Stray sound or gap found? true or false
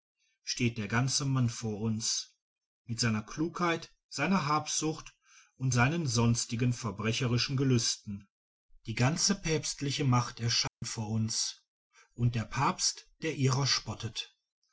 true